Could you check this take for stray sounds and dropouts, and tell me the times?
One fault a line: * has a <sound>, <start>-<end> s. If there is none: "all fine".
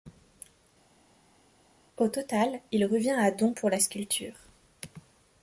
all fine